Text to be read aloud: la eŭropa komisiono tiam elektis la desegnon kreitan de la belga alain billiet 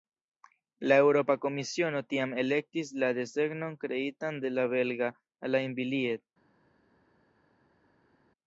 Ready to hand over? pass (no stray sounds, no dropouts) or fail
pass